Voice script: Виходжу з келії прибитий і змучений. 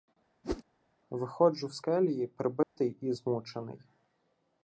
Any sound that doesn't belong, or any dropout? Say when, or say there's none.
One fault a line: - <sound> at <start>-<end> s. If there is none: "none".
- whoosh at 0.4-0.6 s
- dropout at 2.6-2.8 s